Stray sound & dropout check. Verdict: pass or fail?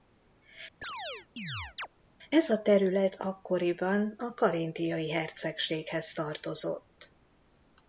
fail